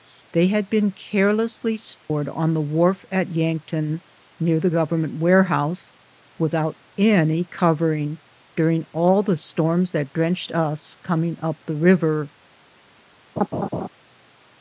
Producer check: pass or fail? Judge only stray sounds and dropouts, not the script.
fail